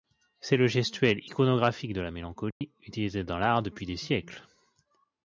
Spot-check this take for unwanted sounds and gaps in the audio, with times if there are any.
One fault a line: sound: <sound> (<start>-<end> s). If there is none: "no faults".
sound: dropout (2.5-2.6 s)